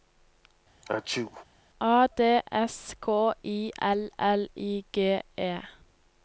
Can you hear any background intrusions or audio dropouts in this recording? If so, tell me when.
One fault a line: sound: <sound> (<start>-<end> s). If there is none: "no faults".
sound: sneeze (0.8-1.4 s)